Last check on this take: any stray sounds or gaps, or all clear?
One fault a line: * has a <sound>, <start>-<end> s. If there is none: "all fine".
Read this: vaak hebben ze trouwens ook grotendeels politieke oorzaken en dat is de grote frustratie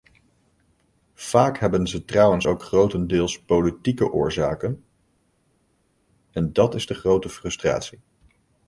all fine